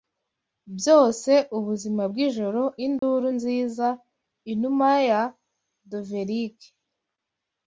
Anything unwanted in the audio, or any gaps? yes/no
yes